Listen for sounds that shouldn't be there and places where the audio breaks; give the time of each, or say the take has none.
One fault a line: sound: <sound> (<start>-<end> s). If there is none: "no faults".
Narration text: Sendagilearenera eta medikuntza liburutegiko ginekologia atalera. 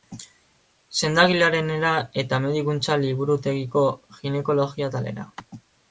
no faults